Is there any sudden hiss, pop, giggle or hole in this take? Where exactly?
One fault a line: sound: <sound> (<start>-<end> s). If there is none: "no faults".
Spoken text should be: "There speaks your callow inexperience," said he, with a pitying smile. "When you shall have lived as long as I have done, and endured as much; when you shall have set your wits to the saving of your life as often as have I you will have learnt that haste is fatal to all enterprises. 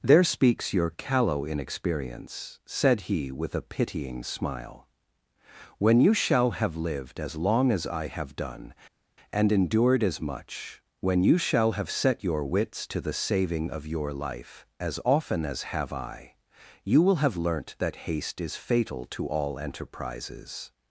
no faults